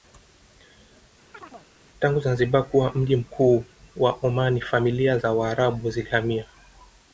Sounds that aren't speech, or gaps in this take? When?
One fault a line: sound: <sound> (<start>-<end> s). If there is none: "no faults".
sound: chirp (1.3-1.7 s)